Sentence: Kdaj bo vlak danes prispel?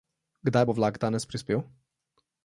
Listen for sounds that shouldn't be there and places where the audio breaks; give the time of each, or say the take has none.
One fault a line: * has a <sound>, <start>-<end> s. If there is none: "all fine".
all fine